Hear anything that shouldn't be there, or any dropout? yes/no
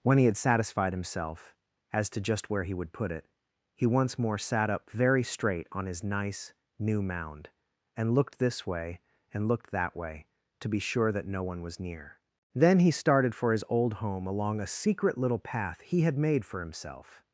no